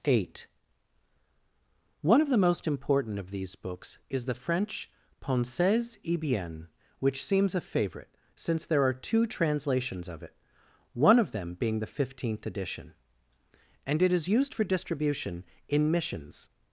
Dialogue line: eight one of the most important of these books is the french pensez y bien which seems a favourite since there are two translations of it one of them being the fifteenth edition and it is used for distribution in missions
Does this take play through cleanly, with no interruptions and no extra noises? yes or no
yes